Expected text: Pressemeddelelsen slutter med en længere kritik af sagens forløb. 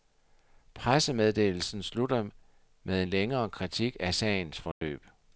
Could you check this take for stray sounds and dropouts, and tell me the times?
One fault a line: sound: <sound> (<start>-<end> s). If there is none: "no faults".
sound: dropout (4.7-4.8 s)